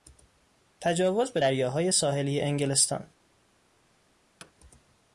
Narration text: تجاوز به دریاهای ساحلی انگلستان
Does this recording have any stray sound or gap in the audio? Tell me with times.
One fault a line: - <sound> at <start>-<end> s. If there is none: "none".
- thud at 4.4-4.5 s